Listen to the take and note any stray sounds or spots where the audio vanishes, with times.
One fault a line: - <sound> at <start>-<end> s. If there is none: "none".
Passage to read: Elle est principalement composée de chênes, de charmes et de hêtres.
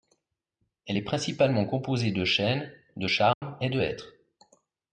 - dropout at 3.3-3.4 s